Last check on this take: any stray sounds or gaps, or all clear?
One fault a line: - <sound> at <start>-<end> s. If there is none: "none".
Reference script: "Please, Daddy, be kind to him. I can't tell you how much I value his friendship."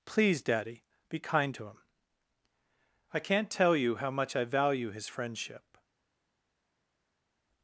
none